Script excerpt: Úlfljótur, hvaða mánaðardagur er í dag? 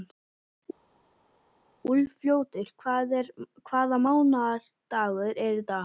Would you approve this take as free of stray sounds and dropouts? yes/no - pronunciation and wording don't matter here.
yes